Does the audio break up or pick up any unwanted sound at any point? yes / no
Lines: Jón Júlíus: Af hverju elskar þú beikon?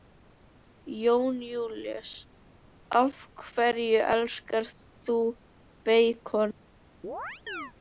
yes